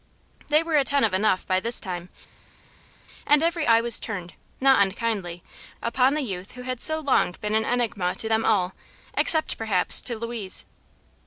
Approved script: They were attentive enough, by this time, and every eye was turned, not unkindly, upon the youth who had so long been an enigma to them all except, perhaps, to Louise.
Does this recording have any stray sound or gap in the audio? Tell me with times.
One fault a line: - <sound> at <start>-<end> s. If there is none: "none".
none